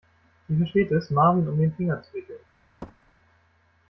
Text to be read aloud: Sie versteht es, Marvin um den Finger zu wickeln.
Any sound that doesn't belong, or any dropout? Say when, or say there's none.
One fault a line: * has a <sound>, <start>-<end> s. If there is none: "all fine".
* has a thud, 2.8-3.1 s